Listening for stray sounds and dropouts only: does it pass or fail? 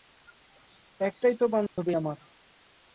fail